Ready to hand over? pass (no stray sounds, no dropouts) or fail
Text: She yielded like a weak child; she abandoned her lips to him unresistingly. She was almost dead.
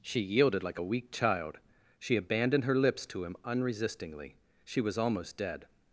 pass